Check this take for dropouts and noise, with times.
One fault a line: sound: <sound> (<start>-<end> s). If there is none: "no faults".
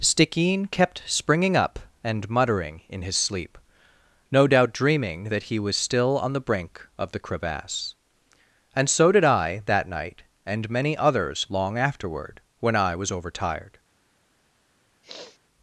sound: sniff (15.0-15.4 s)